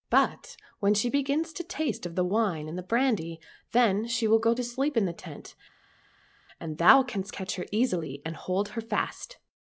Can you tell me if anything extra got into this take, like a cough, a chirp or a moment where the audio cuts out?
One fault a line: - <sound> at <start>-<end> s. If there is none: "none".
none